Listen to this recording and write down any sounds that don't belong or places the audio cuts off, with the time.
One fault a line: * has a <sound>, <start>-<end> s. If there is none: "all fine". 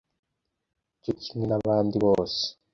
all fine